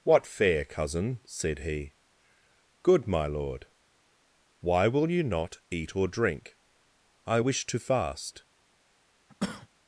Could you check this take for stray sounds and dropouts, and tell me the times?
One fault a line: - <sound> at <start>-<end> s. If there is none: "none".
- cough at 9.3-9.7 s